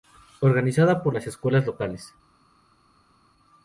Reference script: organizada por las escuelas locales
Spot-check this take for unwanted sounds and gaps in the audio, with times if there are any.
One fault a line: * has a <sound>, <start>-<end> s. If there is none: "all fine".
all fine